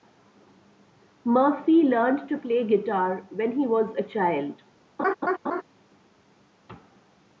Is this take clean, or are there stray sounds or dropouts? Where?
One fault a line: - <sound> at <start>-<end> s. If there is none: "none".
- laugh at 5.0-5.6 s